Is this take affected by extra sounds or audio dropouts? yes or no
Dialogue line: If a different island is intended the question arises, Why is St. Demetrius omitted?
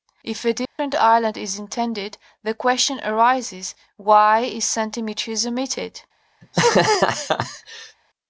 yes